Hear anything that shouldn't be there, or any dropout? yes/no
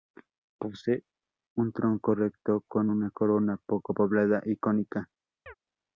yes